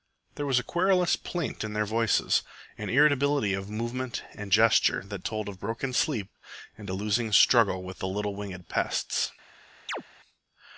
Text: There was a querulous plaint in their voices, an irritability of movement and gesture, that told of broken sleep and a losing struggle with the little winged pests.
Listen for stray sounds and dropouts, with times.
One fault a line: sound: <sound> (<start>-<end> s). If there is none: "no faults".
sound: chirp (9.9-10.0 s)